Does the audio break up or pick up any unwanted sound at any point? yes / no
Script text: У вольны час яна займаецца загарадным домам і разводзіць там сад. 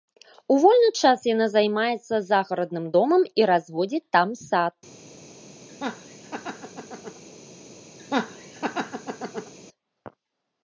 yes